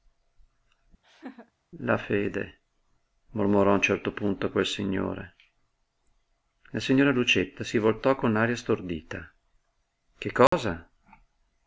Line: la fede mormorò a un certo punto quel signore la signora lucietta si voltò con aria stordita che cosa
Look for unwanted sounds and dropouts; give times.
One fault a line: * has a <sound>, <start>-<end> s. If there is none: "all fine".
* has a laugh, 1.0-1.5 s
* has a dropout, 10.5-10.5 s